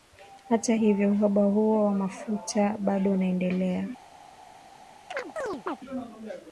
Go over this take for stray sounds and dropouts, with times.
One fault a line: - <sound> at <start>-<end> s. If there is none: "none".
- chirp at 5.1-5.8 s